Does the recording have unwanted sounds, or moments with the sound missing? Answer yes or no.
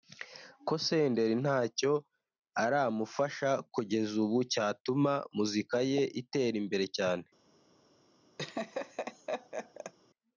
yes